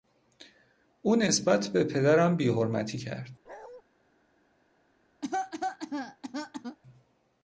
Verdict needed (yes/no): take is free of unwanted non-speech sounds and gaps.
no